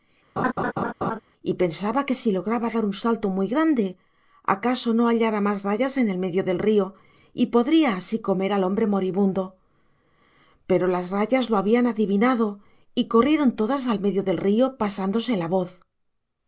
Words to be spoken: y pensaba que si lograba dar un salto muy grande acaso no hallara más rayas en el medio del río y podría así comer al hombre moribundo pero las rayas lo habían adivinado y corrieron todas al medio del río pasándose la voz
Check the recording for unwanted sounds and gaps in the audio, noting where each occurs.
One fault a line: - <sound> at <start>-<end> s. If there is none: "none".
- laugh at 0.4-1.2 s